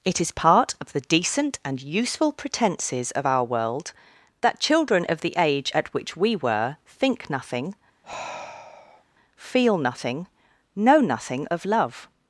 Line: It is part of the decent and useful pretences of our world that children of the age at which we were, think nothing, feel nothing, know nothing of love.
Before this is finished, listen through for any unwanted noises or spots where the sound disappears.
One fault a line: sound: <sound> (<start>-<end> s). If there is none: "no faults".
sound: sigh (8.0-9.0 s)